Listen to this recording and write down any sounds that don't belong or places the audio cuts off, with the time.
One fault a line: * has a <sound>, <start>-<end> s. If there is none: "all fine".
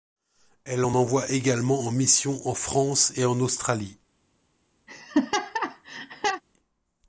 * has a laugh, 4.9-6.4 s